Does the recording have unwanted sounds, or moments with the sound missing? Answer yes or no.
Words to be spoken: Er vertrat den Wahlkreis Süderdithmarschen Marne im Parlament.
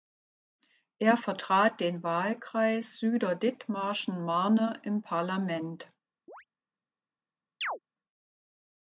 yes